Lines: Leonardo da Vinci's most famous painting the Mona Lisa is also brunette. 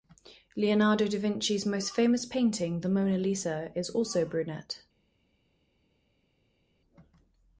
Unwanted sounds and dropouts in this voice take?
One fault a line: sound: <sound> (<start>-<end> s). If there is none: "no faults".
no faults